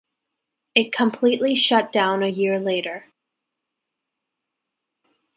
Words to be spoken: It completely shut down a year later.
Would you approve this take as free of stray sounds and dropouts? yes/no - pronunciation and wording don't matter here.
yes